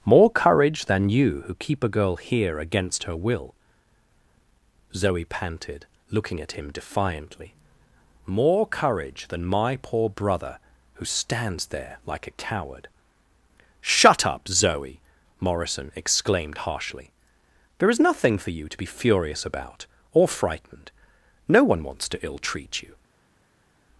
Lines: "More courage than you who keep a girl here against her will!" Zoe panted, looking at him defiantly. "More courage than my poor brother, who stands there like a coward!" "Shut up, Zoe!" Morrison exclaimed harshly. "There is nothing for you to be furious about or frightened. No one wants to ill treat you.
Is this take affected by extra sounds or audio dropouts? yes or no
no